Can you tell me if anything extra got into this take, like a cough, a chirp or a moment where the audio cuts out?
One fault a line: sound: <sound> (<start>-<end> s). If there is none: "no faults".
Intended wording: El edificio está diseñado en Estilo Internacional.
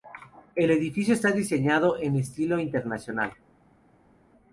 no faults